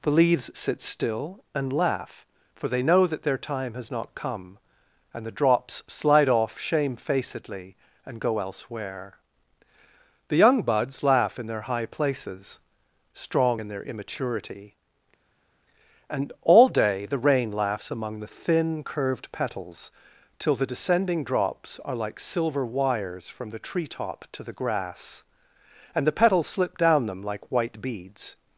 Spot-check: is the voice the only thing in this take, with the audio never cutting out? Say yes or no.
yes